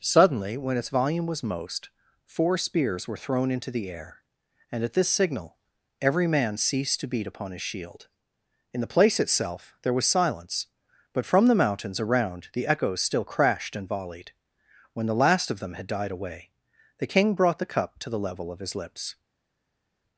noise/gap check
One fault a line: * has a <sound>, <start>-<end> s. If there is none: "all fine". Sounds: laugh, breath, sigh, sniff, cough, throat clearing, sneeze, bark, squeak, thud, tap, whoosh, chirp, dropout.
all fine